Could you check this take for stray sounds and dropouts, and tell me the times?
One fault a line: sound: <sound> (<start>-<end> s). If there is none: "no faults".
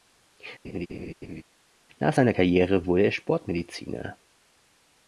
sound: laugh (0.6-1.4 s)